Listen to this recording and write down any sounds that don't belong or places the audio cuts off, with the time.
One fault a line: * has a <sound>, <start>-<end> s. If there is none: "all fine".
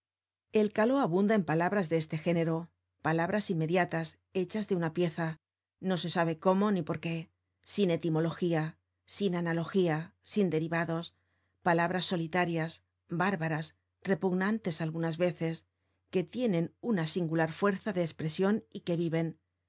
all fine